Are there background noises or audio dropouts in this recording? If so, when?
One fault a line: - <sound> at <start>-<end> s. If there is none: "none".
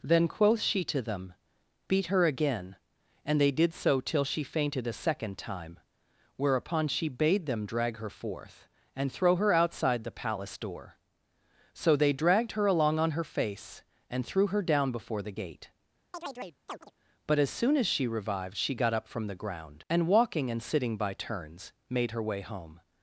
- chirp at 16.1-16.9 s